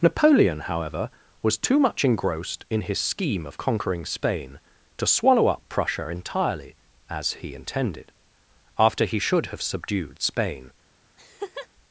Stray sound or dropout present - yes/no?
yes